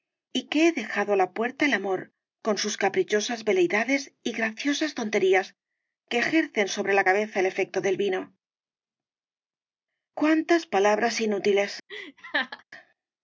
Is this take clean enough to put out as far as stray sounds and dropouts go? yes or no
no